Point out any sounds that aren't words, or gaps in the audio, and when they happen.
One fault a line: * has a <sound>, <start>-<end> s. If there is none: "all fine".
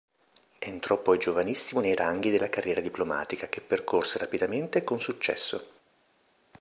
all fine